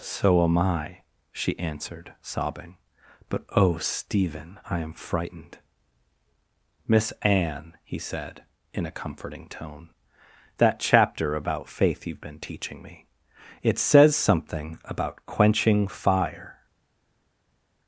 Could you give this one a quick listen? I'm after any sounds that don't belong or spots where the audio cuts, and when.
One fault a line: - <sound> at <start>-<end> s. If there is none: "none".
none